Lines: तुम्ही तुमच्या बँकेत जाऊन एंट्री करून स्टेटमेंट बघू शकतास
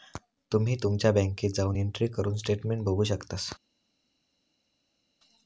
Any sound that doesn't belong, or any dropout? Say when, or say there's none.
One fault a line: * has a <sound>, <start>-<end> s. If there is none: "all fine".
all fine